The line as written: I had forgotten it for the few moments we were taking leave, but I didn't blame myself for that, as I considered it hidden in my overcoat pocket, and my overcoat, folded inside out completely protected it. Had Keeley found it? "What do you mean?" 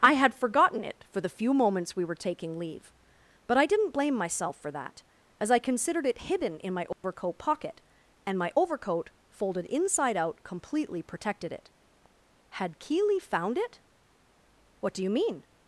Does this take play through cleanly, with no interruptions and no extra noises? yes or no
no